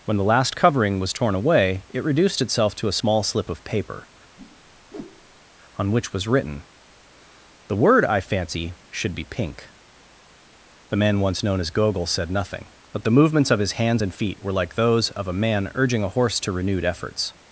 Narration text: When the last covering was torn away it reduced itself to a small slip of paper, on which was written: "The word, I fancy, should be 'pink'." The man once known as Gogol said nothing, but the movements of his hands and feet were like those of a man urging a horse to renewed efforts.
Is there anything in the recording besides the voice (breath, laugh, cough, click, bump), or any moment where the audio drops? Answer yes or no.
yes